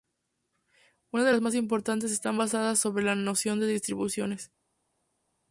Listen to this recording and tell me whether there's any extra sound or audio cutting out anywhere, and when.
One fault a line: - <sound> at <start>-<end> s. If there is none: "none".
none